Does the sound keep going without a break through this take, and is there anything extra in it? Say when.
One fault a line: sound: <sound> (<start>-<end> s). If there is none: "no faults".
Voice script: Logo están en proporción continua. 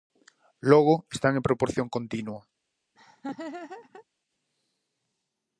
sound: laugh (2.9-4.0 s)